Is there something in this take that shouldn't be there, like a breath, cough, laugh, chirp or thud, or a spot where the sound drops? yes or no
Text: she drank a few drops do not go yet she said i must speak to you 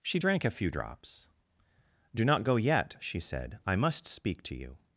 no